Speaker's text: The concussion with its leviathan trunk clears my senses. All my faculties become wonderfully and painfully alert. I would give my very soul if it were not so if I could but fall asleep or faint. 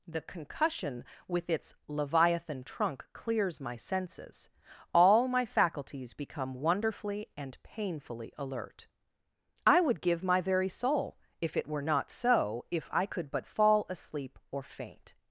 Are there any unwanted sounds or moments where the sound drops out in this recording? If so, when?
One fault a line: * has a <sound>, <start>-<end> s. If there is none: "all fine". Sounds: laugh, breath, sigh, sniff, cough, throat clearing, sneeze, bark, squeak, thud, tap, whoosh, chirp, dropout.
all fine